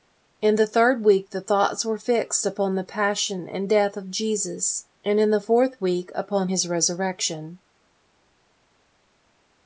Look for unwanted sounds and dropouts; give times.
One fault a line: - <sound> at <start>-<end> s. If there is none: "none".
none